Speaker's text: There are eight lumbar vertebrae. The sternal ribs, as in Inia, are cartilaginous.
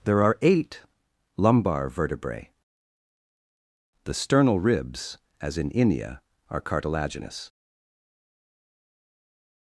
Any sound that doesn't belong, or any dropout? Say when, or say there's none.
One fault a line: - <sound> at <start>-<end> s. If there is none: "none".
none